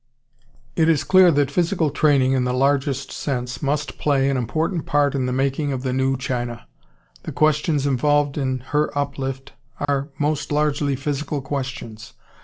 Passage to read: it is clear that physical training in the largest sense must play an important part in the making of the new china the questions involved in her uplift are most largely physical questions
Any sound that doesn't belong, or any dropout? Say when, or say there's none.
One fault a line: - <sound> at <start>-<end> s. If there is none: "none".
- dropout at 9.8-9.9 s